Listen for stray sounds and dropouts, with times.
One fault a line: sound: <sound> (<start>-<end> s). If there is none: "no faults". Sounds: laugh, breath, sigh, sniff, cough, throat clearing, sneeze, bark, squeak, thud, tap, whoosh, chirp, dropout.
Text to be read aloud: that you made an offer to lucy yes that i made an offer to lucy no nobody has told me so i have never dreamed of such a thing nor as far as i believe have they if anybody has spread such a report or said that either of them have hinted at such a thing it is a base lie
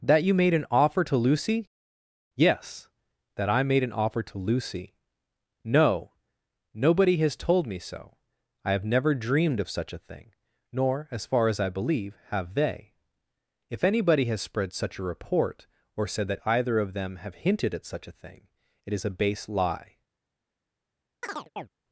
sound: chirp (21.2-21.7 s)